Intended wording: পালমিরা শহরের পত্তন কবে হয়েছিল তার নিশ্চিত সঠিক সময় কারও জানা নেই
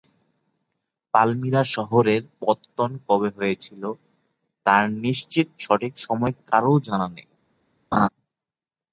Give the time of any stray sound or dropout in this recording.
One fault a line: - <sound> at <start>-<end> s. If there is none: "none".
- laugh at 7.9-8.1 s